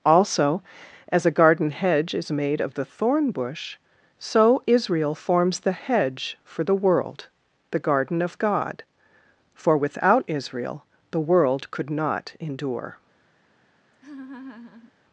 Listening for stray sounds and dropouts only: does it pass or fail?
fail